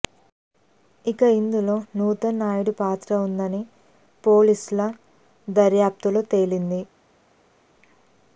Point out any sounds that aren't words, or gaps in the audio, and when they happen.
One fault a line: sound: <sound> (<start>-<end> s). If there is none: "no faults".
no faults